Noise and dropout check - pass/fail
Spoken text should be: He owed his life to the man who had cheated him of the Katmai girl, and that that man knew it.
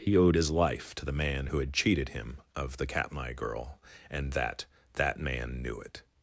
pass